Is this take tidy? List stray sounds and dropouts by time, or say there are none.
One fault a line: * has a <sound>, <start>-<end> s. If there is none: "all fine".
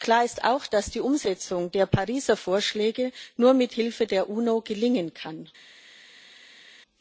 all fine